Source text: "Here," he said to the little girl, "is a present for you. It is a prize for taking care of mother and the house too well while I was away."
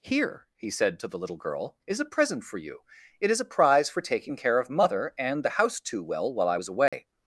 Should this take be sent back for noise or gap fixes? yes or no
yes